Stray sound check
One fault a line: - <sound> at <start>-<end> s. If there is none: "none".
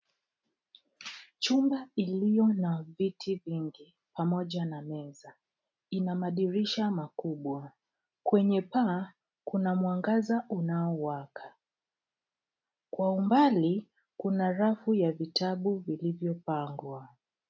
none